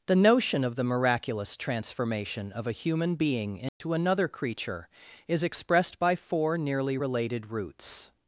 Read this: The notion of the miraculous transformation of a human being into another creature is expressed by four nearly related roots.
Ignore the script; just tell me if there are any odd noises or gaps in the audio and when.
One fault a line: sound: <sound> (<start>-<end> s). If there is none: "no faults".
sound: dropout (3.7-3.8 s)